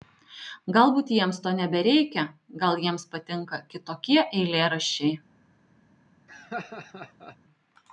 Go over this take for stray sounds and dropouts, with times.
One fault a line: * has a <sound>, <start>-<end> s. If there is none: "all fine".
* has a laugh, 6.3-7.4 s